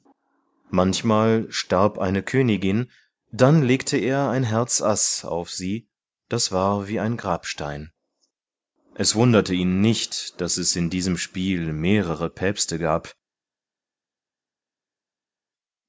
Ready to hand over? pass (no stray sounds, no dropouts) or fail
pass